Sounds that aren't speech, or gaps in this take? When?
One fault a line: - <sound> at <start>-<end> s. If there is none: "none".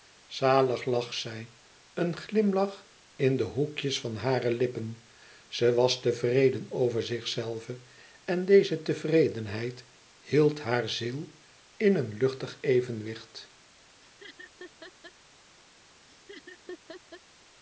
- laugh at 14.0-15.1 s
- laugh at 16.1-17.2 s